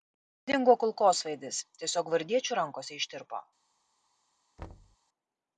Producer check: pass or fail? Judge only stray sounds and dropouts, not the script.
fail